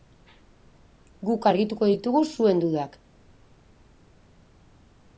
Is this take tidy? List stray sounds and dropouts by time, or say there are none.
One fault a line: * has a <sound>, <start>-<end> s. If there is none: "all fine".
all fine